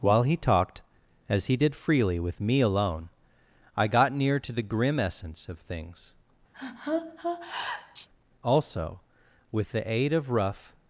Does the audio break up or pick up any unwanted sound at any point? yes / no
yes